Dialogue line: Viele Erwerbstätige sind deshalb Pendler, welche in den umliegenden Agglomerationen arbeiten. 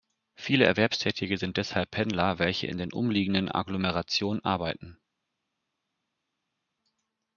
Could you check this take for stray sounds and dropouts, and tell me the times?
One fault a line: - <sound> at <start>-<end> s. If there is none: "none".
none